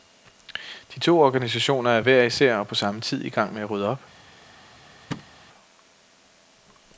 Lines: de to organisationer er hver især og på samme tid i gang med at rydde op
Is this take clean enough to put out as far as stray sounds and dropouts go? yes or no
no